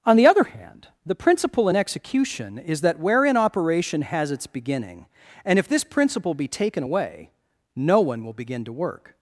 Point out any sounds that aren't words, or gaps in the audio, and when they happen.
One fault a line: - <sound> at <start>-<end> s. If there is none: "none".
none